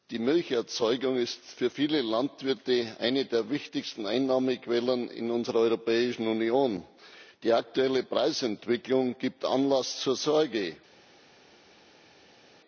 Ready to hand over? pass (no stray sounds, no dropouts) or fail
pass